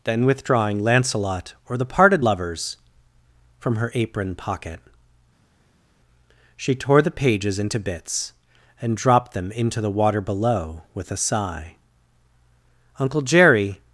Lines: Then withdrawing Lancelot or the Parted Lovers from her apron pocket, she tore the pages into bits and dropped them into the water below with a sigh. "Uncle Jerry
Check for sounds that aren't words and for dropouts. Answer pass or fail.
pass